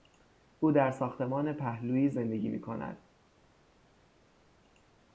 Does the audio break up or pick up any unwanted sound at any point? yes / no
no